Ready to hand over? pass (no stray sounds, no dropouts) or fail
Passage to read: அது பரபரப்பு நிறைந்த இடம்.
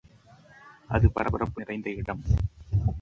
pass